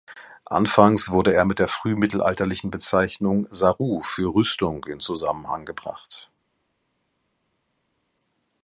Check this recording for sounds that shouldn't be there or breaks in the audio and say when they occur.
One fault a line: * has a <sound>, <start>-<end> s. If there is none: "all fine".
all fine